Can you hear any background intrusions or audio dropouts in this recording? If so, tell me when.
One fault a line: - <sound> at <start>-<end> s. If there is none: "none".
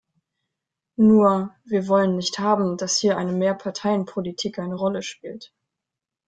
none